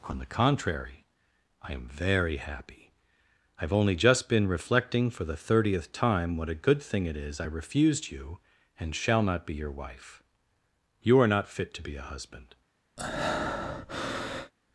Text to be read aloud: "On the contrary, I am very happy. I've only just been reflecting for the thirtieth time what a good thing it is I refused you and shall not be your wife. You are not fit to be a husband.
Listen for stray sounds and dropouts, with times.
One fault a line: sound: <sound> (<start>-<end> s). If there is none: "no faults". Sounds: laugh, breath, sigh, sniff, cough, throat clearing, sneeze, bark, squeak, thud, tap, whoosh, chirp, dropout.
sound: breath (13.0-14.5 s)